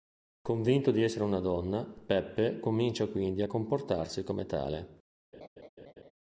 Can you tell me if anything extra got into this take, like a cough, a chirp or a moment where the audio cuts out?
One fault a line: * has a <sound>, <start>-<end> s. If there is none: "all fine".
* has a laugh, 5.3-6.1 s